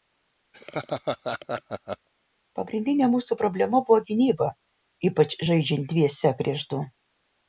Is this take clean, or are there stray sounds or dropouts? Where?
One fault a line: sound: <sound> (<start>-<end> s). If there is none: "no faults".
sound: laugh (0.5-2.1 s)